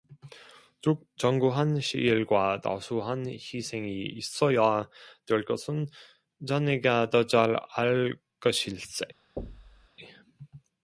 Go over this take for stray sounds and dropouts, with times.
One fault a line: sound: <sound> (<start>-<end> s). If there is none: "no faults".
sound: thud (9.4-9.9 s)